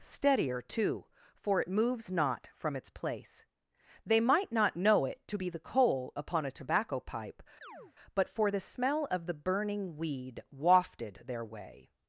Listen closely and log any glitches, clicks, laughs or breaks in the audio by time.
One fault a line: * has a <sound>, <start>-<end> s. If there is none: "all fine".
* has a chirp, 7.6-7.9 s